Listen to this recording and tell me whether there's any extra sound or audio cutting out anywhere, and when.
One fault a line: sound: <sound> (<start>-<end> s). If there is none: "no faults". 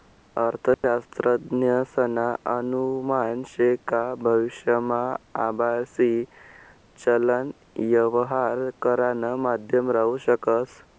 sound: dropout (0.7-0.8 s)